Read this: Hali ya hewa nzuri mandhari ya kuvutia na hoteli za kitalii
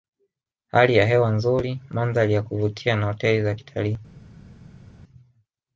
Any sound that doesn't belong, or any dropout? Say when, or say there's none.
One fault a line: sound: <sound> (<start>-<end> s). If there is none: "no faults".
no faults